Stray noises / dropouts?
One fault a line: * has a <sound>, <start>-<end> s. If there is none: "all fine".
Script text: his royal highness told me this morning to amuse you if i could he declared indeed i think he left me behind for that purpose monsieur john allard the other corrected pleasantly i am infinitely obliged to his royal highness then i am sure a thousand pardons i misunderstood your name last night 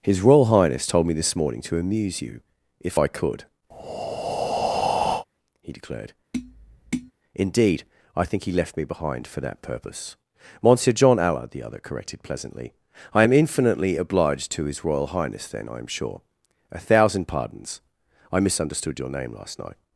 * has a breath, 3.7-5.3 s
* has a tap, 6.3-7.1 s